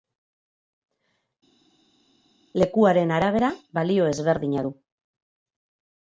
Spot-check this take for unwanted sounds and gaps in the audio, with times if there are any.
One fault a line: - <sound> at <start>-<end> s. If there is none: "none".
none